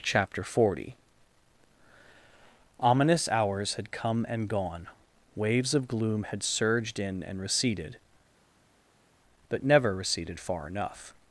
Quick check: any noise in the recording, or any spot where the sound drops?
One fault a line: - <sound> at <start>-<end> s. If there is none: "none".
none